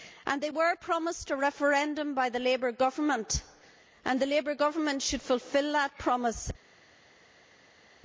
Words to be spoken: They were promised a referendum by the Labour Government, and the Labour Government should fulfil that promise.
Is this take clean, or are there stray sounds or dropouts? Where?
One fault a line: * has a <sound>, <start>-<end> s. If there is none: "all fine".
all fine